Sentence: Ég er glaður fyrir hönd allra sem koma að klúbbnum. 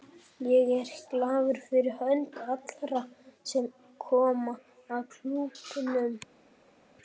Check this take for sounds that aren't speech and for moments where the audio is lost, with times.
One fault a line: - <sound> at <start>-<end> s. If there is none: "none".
none